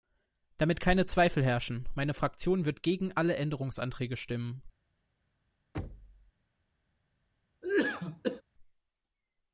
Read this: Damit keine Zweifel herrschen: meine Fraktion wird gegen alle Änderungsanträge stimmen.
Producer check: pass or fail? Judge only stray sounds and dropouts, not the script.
fail